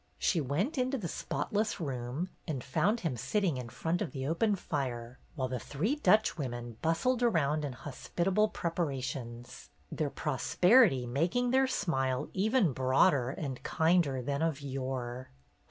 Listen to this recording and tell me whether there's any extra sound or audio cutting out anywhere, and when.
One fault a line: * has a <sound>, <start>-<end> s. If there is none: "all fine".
all fine